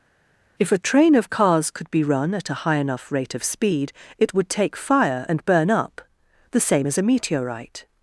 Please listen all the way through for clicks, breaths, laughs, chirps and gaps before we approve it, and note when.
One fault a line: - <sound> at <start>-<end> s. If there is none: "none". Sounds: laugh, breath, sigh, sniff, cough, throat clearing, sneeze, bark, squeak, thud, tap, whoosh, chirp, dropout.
none